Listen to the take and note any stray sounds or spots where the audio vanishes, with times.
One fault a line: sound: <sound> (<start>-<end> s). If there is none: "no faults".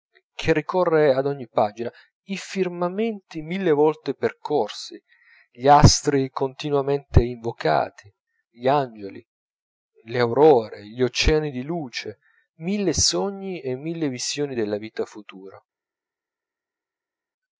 no faults